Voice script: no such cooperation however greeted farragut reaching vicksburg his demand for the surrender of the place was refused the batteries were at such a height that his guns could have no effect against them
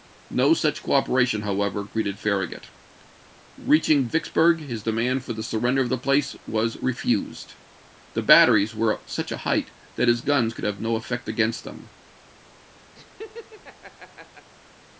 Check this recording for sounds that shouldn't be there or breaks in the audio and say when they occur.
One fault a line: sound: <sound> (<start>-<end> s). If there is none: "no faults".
sound: laugh (12.9-14.5 s)